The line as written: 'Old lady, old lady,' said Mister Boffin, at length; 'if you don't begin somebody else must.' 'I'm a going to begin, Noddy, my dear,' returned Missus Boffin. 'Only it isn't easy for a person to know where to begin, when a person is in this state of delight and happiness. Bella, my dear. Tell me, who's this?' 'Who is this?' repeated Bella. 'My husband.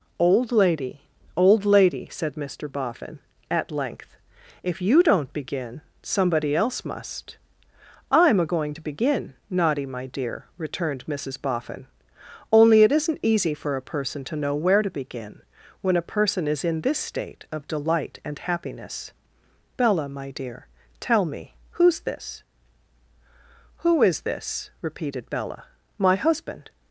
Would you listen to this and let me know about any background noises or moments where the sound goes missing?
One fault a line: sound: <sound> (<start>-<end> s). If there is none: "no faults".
no faults